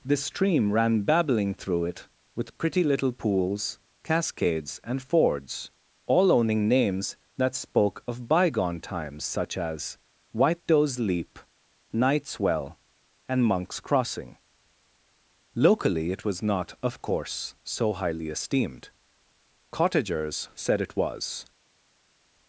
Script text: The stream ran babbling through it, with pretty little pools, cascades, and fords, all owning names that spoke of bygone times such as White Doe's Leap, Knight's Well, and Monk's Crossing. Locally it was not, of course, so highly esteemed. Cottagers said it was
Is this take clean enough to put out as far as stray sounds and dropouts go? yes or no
yes